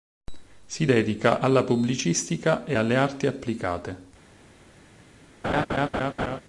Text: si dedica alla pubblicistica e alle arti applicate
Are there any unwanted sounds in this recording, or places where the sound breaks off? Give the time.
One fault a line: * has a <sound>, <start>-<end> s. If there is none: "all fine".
* has a laugh, 5.4-6.4 s